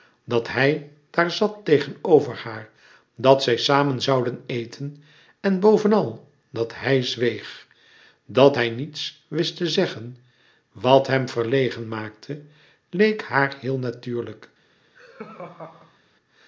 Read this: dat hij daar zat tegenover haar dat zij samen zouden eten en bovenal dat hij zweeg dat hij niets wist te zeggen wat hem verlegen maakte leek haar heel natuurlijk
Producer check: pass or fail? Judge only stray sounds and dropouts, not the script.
fail